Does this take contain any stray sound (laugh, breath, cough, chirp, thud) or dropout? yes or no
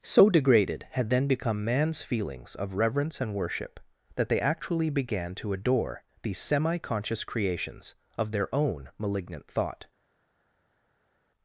no